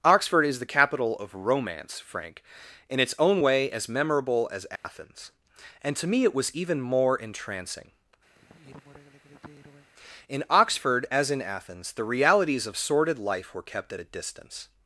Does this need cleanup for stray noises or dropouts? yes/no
yes